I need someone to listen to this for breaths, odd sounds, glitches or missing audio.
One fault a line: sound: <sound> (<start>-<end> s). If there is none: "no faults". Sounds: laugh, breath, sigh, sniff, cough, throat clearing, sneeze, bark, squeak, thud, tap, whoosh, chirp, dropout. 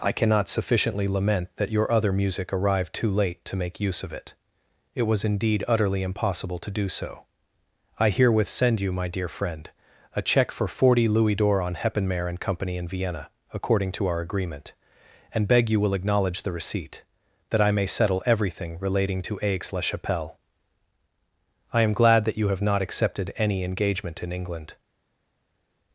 no faults